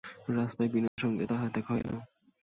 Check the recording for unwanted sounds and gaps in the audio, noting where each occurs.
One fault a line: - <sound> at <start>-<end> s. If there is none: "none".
- dropout at 0.9-1.0 s